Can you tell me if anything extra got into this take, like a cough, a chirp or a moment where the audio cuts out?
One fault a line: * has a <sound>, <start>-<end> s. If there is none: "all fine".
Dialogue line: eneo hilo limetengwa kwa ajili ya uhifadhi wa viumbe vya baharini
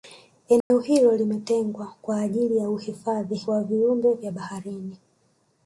* has a dropout, 0.6-0.7 s